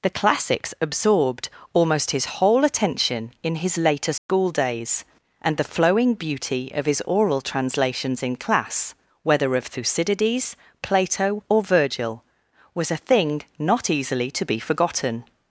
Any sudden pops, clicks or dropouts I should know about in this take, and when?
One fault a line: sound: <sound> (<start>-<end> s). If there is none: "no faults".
sound: dropout (4.2-4.3 s)